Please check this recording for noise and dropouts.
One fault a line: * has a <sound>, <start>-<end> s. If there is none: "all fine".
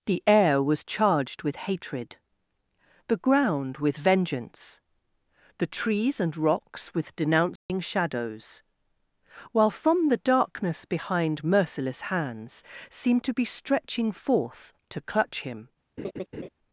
* has a dropout, 7.6-7.7 s
* has a laugh, 16.0-16.5 s